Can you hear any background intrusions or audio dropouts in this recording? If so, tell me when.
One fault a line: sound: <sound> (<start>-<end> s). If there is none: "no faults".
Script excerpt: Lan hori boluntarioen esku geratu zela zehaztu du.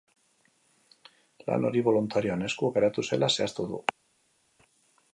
no faults